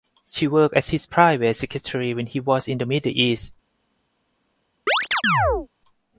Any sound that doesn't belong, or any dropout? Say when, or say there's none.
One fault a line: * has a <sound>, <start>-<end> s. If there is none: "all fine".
* has a chirp, 4.9-5.7 s